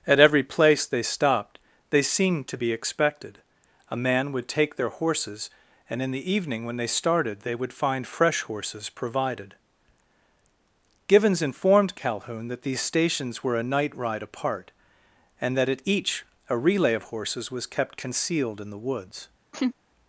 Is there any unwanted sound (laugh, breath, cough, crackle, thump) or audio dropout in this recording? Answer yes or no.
yes